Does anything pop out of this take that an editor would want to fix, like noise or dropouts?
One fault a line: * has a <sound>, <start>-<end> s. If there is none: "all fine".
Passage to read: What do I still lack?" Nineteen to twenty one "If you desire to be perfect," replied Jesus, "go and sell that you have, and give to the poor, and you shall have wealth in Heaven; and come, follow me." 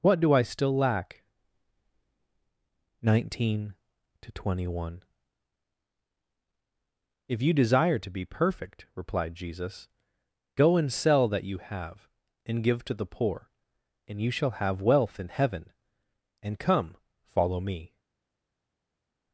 all fine